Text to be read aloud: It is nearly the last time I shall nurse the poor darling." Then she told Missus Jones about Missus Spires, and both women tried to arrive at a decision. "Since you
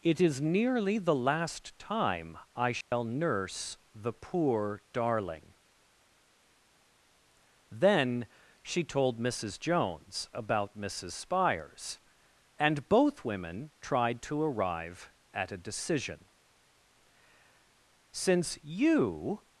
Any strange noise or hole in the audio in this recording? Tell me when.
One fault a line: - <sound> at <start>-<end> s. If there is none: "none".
- dropout at 2.8-2.9 s